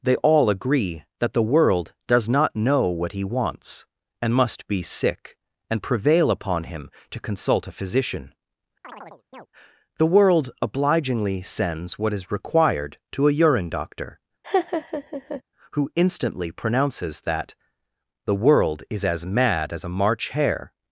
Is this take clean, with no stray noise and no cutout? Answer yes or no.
no